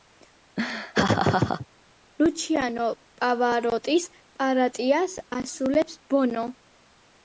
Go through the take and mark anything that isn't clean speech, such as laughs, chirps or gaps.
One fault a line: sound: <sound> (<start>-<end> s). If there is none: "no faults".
sound: laugh (0.6-1.7 s)